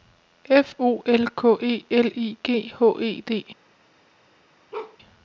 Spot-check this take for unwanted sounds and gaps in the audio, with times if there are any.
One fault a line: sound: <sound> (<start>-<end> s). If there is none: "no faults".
sound: bark (4.7-5.0 s)